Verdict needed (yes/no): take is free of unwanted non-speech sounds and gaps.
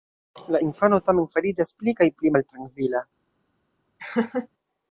no